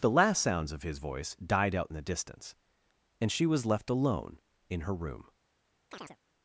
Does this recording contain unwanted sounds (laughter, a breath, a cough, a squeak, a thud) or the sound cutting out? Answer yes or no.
yes